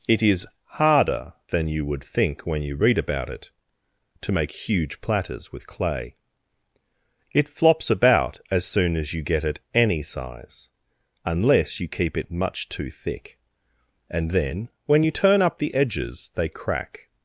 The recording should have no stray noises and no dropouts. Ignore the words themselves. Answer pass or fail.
pass